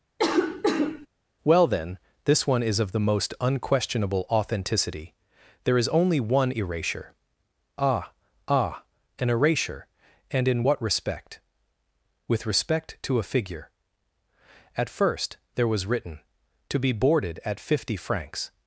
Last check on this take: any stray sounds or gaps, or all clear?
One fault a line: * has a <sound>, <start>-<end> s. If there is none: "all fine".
* has a cough, 0.2-1.1 s